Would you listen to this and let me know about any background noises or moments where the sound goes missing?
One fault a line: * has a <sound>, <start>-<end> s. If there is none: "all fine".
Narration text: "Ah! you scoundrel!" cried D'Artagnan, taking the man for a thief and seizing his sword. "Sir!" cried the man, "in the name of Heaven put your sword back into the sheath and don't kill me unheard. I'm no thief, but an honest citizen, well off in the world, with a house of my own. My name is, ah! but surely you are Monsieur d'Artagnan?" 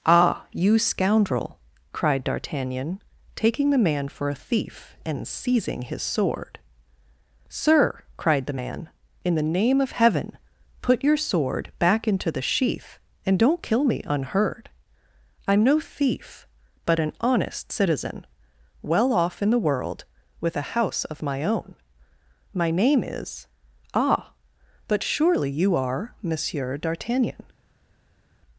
all fine